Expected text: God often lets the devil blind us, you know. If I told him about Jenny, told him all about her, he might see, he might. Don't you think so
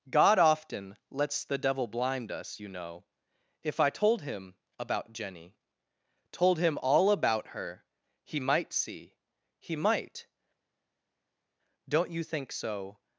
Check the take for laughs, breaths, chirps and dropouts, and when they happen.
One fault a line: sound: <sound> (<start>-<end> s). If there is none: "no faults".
no faults